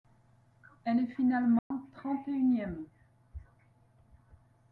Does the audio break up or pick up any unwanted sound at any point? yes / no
yes